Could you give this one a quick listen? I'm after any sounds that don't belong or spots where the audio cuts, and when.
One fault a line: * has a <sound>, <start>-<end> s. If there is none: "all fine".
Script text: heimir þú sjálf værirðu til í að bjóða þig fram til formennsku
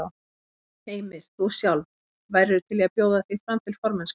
all fine